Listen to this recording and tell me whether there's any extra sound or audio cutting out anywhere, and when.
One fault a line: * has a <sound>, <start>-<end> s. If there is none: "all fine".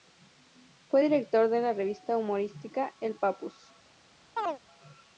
* has a chirp, 4.4-4.6 s